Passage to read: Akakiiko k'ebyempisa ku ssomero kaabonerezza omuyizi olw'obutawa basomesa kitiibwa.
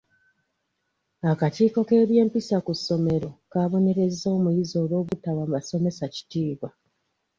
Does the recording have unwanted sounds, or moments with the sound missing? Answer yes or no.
yes